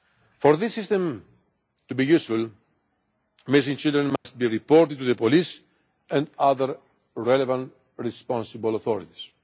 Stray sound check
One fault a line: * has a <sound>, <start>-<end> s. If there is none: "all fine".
* has a dropout, 4.2-4.3 s